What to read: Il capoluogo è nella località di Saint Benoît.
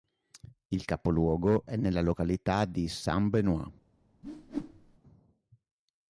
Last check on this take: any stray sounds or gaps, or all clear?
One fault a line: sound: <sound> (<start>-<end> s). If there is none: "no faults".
sound: whoosh (4.2-5.0 s)